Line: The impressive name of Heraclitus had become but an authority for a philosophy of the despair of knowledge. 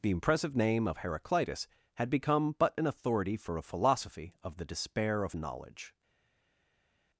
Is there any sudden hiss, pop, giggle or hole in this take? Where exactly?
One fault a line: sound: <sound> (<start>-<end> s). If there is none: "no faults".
no faults